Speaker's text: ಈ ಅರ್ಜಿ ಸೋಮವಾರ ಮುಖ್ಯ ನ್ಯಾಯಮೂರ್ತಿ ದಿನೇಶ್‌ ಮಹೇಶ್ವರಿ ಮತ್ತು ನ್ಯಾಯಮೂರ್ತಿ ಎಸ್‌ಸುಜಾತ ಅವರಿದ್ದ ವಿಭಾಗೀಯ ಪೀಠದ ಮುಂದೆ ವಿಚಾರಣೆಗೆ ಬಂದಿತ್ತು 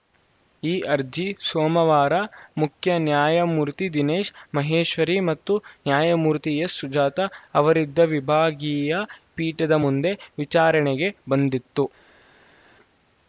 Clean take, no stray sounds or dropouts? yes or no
yes